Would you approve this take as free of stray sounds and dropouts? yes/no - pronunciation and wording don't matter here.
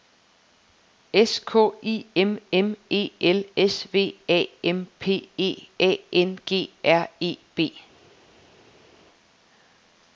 yes